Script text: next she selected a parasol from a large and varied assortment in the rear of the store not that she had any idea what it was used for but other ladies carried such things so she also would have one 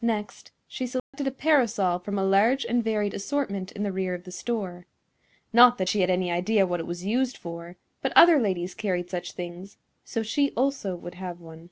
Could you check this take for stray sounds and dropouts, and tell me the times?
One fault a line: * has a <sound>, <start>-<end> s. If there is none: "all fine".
* has a dropout, 1.0-1.1 s